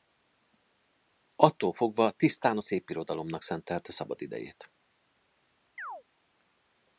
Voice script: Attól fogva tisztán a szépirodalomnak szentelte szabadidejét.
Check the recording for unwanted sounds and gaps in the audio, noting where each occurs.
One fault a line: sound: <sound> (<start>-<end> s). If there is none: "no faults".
sound: chirp (5.8-6.0 s)